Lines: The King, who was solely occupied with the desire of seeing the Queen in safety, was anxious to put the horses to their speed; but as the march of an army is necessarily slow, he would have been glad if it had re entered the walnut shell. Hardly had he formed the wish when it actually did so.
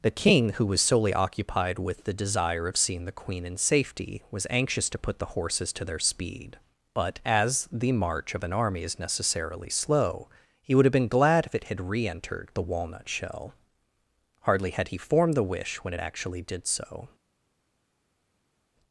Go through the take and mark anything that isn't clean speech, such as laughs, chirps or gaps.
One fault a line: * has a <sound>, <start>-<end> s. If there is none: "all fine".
all fine